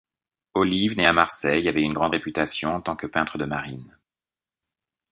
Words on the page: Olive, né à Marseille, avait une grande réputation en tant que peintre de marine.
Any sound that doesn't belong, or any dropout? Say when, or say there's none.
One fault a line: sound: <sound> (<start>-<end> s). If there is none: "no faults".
no faults